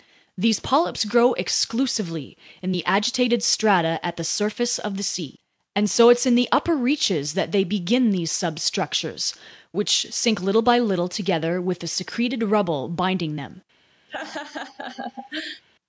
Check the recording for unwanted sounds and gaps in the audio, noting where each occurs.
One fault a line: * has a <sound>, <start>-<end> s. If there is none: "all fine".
* has a laugh, 14.1-15.6 s